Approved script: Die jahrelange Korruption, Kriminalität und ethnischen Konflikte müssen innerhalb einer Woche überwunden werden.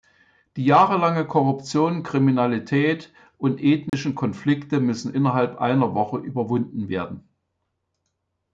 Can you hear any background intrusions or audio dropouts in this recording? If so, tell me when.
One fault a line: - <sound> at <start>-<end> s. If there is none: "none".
- dropout at 3.9-3.9 s